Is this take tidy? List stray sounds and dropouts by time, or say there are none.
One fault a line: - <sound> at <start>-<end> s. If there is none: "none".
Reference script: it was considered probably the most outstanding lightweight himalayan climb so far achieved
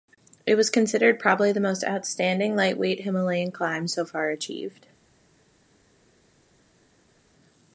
none